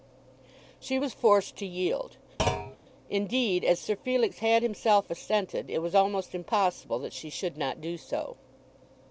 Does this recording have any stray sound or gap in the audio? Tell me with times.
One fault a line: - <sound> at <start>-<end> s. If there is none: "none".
- thud at 2.4-2.8 s